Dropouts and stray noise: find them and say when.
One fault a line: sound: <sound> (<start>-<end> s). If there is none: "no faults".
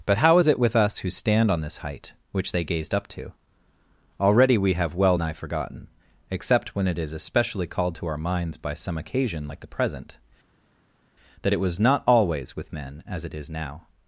no faults